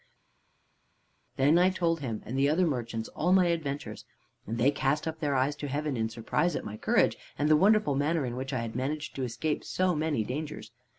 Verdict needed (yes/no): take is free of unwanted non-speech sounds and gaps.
yes